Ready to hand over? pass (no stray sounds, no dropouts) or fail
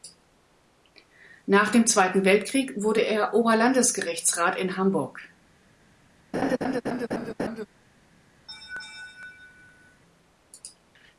fail